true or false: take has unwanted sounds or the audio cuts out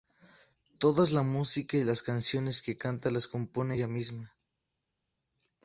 false